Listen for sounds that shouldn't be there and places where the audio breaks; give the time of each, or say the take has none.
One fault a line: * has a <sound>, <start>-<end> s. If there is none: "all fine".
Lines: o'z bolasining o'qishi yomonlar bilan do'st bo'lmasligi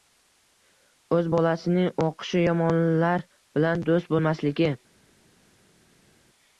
all fine